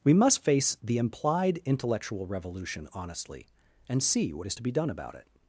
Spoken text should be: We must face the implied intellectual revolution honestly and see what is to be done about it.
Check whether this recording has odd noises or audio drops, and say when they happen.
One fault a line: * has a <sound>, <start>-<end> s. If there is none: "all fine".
all fine